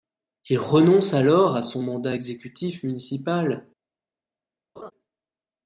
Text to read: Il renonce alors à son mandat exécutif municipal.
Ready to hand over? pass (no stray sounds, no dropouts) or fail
fail